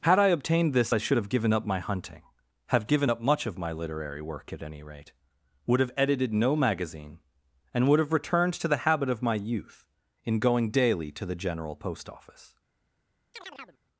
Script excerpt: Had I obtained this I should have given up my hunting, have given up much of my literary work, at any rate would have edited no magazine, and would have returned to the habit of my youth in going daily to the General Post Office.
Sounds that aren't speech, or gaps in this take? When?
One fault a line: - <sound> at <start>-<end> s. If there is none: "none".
- chirp at 13.3-13.8 s